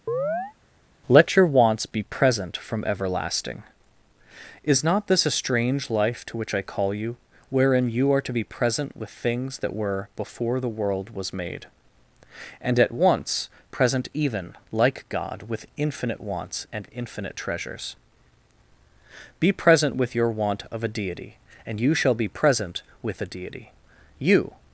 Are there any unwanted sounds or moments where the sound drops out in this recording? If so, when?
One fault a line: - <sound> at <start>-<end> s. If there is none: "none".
- chirp at 0.1-0.5 s